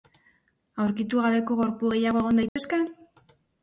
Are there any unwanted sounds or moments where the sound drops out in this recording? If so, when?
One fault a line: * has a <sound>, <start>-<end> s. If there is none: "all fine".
* has a dropout, 2.5-2.6 s